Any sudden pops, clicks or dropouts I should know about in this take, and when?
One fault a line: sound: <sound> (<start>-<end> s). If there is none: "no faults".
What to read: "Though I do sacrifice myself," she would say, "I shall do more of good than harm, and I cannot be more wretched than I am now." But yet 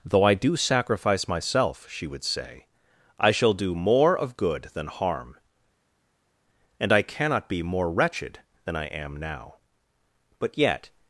no faults